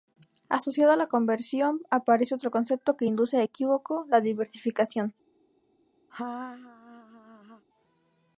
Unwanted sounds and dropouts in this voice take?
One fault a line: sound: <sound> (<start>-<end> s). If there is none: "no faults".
sound: laugh (6.1-7.6 s)